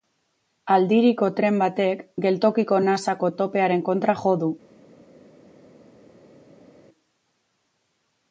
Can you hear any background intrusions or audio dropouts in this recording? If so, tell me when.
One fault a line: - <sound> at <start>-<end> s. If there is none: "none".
none